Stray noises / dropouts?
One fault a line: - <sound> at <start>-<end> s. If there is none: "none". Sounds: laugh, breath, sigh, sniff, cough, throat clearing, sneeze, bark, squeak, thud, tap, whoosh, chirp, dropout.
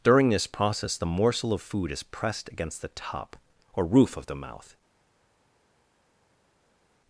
none